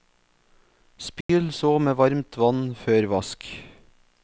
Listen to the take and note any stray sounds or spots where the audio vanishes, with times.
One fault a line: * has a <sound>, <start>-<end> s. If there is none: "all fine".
* has a dropout, 1.2-1.3 s